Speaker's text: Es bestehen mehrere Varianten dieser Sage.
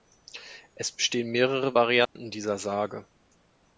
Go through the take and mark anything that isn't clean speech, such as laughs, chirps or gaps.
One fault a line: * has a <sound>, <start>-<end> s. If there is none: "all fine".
* has a dropout, 2.0-2.2 s